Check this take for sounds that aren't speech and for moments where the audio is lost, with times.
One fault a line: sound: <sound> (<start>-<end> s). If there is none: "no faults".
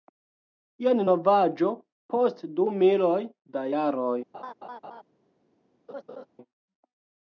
sound: laugh (4.3-5.0 s)
sound: laugh (5.9-6.3 s)